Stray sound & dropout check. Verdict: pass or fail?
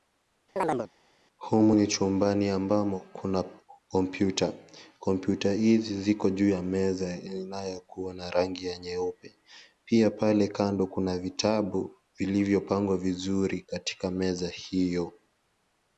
fail